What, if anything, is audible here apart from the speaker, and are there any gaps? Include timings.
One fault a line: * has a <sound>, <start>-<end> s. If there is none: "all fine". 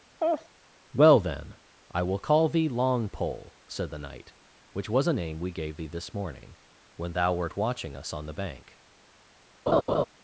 * has a laugh, 0.2-0.5 s
* has a laugh, 9.7-10.0 s